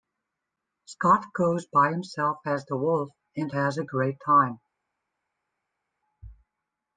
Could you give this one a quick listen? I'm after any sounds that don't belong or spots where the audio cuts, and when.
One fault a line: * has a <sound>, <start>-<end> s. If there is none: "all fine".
all fine